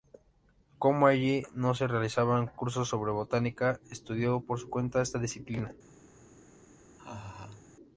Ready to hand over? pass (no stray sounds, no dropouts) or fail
fail